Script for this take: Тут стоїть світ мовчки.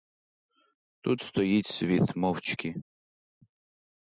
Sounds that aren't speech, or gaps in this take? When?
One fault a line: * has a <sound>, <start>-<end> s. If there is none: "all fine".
all fine